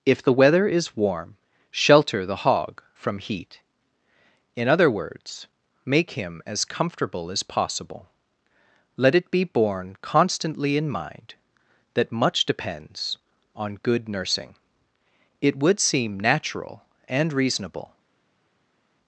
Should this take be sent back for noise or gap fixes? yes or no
no